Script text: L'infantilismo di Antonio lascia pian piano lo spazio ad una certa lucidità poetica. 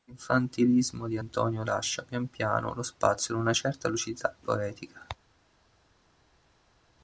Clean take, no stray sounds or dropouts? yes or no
yes